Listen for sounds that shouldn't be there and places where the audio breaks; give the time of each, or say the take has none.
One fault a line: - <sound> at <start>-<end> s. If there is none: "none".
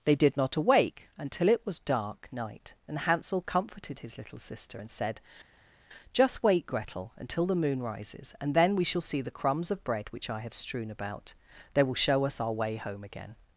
none